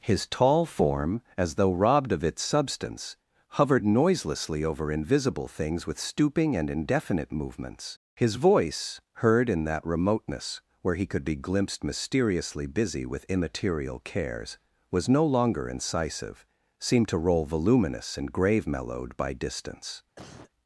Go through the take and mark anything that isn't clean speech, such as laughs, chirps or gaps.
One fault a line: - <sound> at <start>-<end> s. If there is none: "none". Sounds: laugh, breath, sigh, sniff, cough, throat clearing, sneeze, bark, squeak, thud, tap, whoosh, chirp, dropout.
- cough at 20.2-20.5 s